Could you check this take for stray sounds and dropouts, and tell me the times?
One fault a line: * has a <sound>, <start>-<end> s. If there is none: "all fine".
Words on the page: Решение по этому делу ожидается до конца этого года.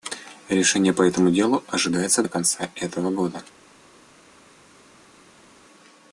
all fine